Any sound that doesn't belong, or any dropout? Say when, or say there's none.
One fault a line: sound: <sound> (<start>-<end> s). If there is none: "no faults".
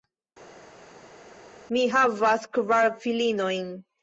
no faults